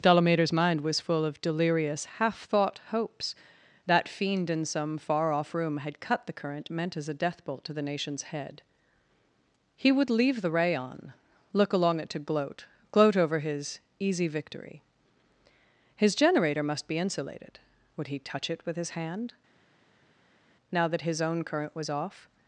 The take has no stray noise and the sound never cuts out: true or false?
true